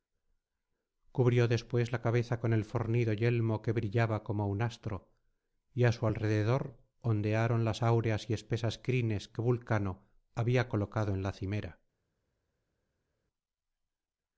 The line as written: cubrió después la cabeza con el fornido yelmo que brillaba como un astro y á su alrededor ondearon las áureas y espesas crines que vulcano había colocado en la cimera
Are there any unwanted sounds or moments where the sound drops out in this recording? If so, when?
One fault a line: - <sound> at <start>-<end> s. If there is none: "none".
none